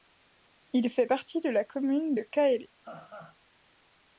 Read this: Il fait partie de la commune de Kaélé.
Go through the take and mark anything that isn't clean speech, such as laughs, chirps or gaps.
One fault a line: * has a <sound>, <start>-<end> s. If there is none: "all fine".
* has a laugh, 2.8-3.4 s